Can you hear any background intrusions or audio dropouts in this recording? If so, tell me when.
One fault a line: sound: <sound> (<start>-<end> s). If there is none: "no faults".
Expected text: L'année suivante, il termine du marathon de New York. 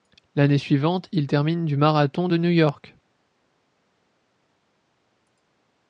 no faults